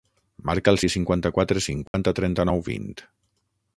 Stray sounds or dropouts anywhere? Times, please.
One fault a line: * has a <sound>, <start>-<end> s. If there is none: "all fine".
* has a dropout, 1.9-1.9 s